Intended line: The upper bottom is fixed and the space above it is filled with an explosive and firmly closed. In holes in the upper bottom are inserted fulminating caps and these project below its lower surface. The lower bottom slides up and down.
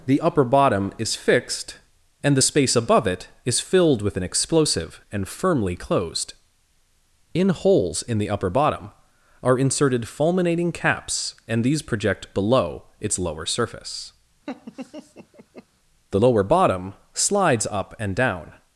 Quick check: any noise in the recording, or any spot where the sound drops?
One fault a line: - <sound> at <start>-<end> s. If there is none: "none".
- laugh at 14.5-15.7 s